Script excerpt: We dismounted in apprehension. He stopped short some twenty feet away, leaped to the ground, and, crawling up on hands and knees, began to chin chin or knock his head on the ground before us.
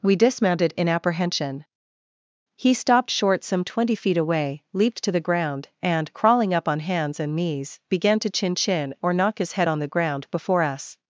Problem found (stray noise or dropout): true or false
false